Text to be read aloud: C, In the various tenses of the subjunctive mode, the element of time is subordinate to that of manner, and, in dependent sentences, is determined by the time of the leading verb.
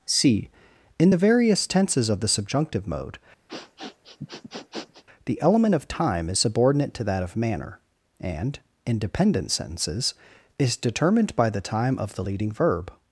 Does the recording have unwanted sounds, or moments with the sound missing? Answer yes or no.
yes